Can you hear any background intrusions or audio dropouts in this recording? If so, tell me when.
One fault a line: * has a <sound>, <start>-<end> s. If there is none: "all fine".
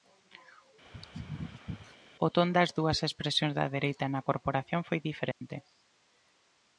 * has a sneeze, 0.8-2.0 s
* has a dropout, 5.3-5.4 s